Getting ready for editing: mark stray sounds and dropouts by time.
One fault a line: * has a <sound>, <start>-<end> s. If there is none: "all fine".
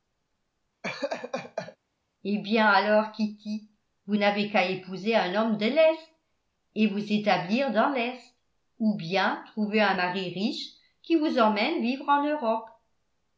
* has a laugh, 0.8-1.8 s